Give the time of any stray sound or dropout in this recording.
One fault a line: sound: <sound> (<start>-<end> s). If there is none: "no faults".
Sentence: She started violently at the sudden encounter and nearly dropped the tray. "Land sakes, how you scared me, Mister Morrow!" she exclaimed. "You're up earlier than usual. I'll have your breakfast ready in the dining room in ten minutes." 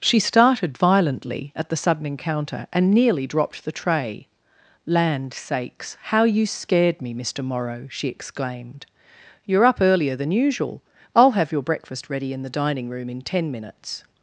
no faults